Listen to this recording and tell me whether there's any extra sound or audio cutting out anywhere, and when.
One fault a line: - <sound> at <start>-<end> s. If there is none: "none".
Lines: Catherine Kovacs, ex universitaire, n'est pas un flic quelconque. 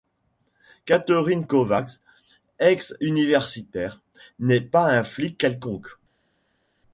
none